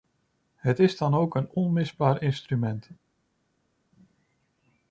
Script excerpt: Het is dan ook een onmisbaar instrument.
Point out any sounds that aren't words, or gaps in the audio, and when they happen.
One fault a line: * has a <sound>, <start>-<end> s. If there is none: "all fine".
all fine